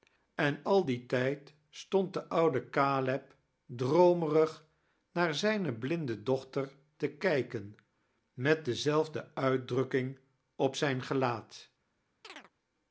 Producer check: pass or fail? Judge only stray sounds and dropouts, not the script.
fail